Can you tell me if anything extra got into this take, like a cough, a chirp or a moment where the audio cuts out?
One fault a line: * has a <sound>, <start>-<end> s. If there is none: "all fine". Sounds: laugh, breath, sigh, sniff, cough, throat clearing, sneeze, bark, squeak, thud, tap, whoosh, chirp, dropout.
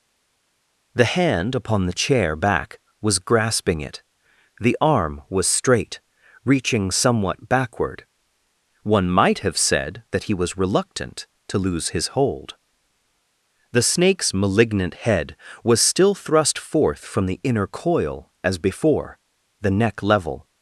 all fine